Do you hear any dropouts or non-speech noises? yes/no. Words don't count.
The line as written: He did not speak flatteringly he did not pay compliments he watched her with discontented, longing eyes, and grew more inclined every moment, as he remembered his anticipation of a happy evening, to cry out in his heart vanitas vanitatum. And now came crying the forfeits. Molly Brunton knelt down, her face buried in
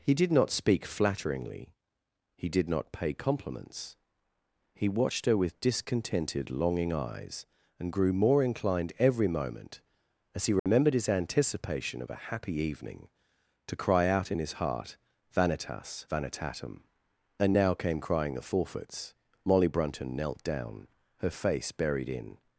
yes